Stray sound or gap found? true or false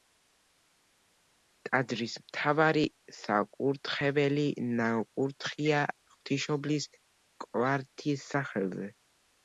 false